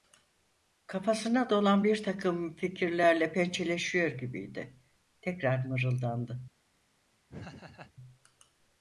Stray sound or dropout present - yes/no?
yes